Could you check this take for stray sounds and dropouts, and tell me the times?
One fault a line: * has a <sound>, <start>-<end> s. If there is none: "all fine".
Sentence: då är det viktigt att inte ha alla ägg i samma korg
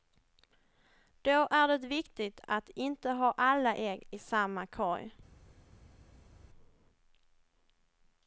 all fine